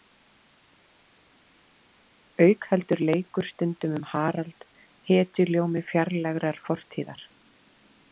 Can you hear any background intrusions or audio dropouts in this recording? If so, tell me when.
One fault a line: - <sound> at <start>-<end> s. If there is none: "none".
none